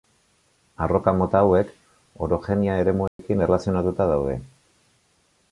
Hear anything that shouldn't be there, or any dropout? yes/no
yes